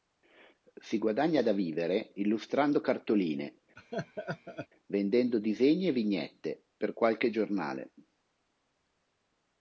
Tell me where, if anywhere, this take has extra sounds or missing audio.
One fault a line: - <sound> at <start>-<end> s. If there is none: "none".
- laugh at 3.8-4.7 s